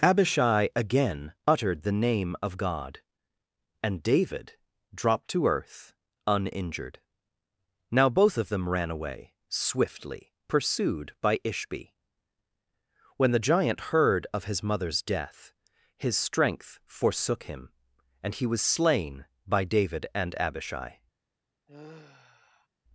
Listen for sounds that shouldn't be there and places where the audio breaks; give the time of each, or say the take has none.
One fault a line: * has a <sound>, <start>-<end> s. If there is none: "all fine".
* has a sigh, 21.7-22.7 s